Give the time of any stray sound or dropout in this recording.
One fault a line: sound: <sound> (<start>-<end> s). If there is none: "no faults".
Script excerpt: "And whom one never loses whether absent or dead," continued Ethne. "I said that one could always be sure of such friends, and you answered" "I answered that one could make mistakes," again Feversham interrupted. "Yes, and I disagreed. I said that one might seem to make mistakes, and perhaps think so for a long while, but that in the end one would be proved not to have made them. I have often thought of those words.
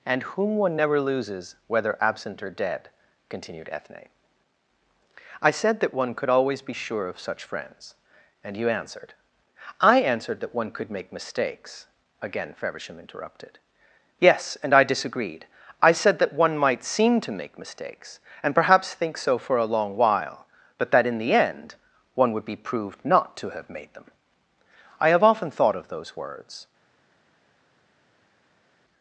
no faults